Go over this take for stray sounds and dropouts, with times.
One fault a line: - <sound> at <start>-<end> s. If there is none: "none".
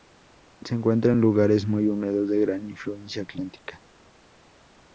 none